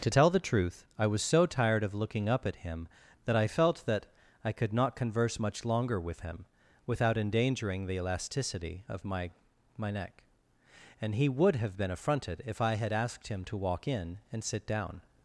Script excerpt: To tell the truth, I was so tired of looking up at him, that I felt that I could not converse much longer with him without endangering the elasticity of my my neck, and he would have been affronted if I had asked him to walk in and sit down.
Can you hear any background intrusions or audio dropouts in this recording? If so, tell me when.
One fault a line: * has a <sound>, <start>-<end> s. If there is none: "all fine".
all fine